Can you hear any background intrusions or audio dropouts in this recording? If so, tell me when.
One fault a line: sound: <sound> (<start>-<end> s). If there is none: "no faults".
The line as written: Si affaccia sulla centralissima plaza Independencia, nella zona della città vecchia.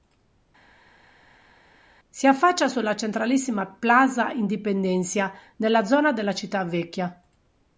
no faults